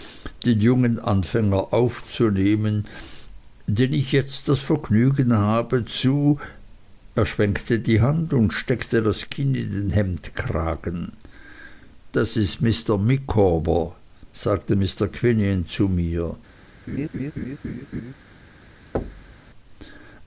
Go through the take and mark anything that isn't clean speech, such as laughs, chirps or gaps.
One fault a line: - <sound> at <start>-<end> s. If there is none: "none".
- laugh at 16.9-18.1 s
- thud at 18.9-19.4 s